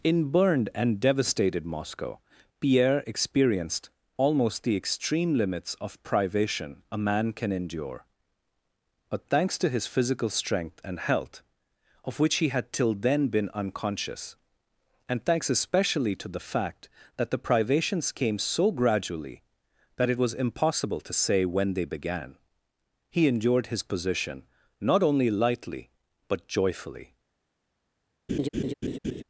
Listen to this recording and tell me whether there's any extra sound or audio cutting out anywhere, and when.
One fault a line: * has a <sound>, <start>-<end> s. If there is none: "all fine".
* has a laugh, 28.3-29.2 s